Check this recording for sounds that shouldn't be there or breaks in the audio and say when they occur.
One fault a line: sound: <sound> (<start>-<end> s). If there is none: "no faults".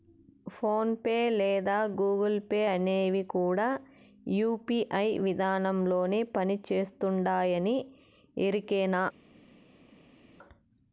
no faults